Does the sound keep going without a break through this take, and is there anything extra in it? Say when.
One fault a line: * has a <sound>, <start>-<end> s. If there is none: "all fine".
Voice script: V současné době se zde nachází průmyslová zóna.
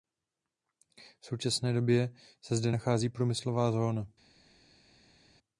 all fine